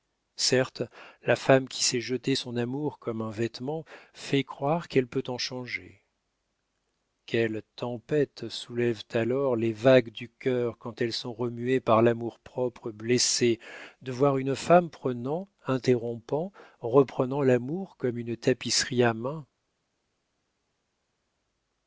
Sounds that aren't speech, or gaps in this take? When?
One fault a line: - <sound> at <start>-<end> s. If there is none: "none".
none